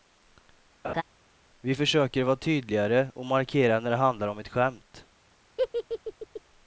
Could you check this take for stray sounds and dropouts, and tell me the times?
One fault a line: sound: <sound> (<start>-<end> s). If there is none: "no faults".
sound: laugh (0.8-1.0 s)
sound: laugh (5.6-6.4 s)